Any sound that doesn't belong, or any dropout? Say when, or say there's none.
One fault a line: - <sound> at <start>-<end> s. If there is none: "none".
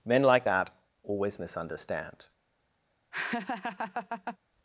- laugh at 3.1-4.4 s